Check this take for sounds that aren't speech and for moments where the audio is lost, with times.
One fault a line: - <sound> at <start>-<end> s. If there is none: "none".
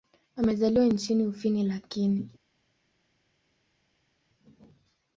none